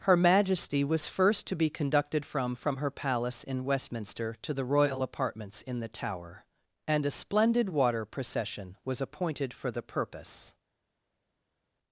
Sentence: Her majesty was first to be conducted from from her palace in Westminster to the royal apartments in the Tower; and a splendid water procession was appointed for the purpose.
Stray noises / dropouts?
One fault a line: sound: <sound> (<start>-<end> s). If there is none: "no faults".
no faults